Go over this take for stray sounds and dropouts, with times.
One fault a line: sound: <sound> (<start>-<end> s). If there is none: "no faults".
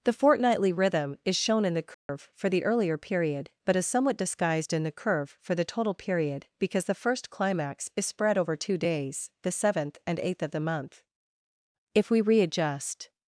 sound: dropout (1.9-2.1 s)